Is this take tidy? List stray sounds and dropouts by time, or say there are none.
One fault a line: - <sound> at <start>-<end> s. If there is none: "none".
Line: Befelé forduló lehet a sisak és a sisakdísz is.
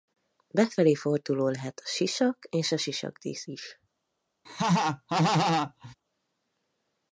- laugh at 4.4-5.9 s